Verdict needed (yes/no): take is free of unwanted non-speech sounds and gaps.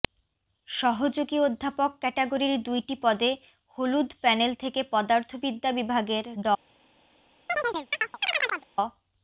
no